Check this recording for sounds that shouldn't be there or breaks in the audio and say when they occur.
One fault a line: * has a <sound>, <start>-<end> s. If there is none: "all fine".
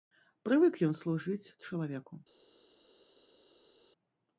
all fine